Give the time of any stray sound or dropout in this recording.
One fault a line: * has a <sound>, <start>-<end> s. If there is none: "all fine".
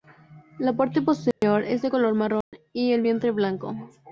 * has a dropout, 1.3-1.4 s
* has a dropout, 2.4-2.5 s